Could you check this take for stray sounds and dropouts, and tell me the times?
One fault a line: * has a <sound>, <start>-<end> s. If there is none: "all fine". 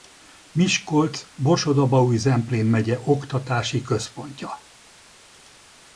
all fine